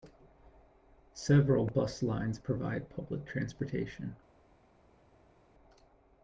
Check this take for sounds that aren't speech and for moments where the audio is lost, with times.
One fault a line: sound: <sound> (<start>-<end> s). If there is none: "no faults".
no faults